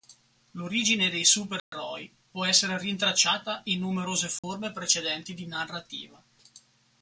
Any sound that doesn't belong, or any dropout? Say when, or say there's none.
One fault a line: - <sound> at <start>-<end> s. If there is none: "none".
- dropout at 1.6-1.7 s
- dropout at 4.4-4.4 s